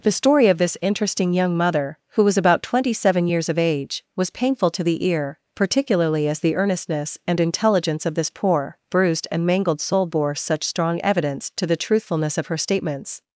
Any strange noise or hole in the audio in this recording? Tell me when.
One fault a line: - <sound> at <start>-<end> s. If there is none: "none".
none